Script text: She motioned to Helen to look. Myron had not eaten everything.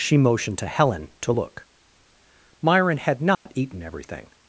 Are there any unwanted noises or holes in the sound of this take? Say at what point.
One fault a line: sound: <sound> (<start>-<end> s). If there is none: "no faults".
sound: dropout (3.3-3.5 s)